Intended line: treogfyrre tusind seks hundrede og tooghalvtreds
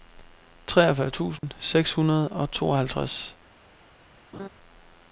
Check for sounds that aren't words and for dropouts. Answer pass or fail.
fail